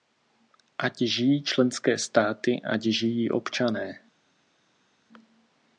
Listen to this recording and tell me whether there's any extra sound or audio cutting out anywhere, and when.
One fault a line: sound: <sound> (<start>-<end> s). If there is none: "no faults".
no faults